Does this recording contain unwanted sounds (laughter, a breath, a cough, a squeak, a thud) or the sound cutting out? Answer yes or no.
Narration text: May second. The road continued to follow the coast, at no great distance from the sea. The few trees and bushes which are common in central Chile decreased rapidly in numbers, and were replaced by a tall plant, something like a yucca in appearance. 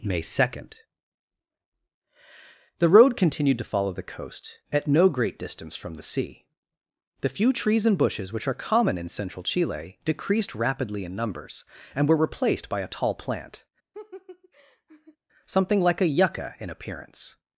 yes